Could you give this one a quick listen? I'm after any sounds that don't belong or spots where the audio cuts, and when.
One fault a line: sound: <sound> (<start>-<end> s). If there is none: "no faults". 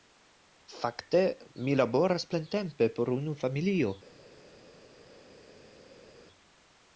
no faults